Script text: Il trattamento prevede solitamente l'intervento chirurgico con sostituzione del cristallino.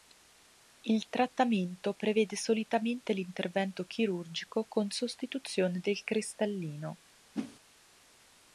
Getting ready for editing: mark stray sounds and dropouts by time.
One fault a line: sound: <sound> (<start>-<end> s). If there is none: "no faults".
sound: whoosh (7.3-7.6 s)